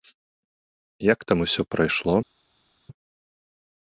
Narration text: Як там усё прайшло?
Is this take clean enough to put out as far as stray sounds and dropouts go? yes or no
yes